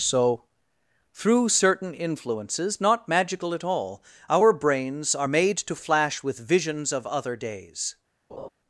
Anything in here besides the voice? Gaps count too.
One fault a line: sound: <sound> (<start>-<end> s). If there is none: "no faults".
sound: laugh (8.3-8.5 s)